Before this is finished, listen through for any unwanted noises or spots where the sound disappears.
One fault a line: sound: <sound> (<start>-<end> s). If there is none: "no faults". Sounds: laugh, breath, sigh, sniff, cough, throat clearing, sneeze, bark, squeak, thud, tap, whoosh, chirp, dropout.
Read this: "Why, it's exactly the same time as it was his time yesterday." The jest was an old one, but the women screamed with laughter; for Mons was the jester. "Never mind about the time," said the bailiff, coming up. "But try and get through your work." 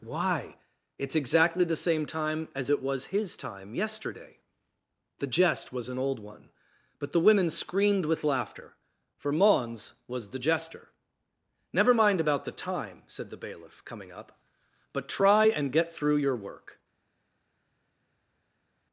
no faults